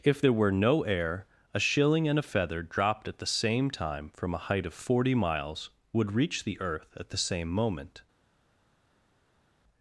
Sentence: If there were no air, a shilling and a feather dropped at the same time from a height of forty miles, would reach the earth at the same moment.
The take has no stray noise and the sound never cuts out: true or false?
true